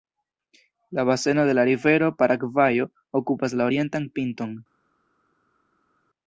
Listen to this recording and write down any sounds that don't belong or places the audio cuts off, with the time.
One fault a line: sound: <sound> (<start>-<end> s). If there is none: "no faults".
no faults